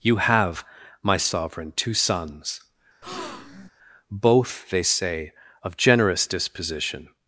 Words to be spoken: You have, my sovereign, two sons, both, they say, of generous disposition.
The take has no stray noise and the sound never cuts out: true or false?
false